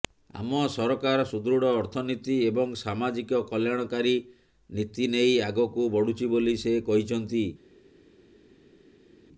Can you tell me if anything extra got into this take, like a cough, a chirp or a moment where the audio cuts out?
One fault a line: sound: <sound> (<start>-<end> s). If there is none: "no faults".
no faults